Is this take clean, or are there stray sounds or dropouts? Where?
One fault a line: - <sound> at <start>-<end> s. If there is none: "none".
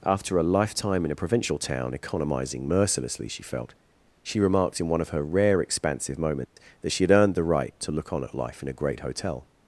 - dropout at 6.5-6.6 s